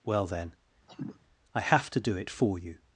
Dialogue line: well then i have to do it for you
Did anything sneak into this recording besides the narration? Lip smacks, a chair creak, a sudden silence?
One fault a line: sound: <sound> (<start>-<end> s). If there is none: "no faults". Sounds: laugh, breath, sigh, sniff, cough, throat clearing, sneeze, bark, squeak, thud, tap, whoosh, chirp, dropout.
sound: cough (0.9-1.2 s)